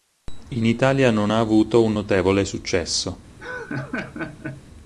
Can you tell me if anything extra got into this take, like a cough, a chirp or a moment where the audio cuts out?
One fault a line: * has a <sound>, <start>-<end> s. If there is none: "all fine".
* has a laugh, 3.4-4.6 s